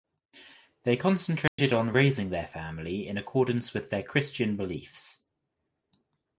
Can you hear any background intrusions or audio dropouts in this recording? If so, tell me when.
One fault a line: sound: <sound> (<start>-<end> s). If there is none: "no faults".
sound: dropout (1.5-1.6 s)